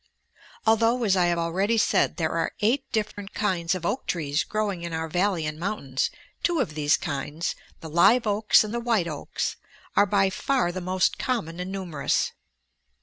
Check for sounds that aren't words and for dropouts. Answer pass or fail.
fail